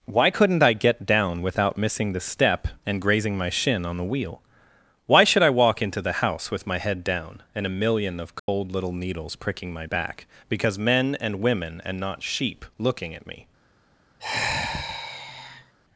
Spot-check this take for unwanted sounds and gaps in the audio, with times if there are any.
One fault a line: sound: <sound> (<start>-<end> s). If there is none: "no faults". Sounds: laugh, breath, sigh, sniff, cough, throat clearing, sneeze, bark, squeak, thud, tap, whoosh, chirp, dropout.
sound: dropout (8.4-8.5 s)
sound: sigh (14.2-15.7 s)